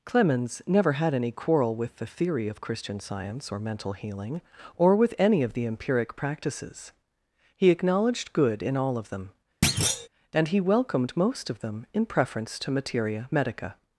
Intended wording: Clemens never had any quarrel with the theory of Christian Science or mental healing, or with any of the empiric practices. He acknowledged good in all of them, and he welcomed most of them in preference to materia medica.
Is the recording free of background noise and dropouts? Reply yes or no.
no